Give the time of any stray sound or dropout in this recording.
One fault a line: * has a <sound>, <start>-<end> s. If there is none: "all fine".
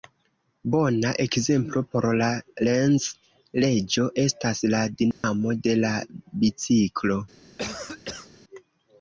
* has a dropout, 5.1-5.2 s
* has a cough, 7.6-8.3 s